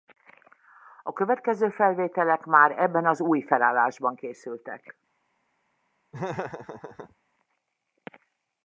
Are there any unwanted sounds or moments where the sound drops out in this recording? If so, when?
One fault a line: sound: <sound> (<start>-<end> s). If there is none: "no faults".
sound: laugh (6.1-7.2 s)